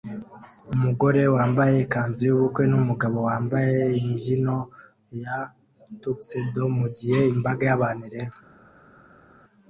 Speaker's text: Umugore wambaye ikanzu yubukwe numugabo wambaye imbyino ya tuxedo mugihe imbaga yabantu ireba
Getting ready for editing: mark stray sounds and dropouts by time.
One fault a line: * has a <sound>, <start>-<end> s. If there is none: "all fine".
all fine